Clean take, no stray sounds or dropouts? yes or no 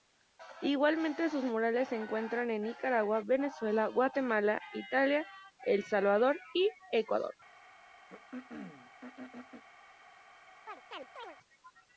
no